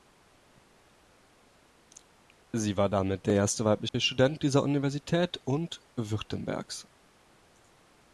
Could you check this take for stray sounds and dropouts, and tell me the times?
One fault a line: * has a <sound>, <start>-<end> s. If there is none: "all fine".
* has a dropout, 3.9-3.9 s